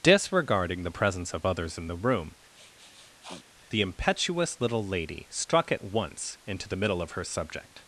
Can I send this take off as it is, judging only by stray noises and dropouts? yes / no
no